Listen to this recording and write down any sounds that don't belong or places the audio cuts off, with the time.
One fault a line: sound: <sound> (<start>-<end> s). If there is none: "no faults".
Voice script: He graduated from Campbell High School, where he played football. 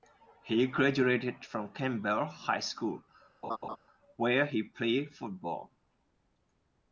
sound: laugh (3.4-3.8 s)